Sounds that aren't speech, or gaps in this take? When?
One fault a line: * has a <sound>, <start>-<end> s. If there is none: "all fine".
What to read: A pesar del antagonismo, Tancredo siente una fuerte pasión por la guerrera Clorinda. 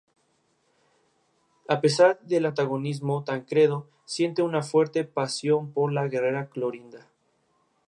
all fine